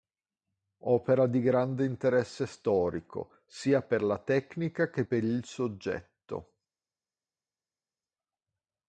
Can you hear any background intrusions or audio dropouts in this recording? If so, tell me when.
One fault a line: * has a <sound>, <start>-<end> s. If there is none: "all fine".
all fine